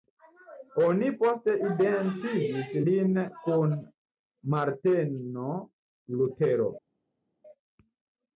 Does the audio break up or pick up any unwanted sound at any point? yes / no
no